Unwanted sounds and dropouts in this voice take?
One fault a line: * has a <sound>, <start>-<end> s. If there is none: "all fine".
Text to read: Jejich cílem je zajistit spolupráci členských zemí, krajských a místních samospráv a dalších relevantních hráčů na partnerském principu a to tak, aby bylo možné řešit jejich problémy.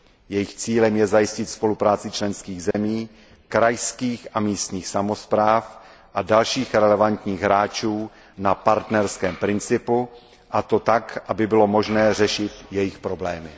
* has a dropout, 2.7-2.7 s